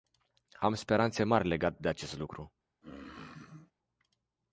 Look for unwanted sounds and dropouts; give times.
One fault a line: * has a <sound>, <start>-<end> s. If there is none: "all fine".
* has a throat clearing, 2.8-3.7 s